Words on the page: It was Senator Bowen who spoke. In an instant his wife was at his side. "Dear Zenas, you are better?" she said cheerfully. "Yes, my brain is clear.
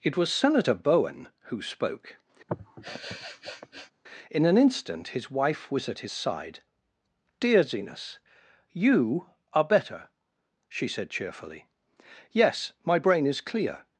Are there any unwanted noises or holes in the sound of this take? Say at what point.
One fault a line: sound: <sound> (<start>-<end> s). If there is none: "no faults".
sound: sniff (2.5-3.9 s)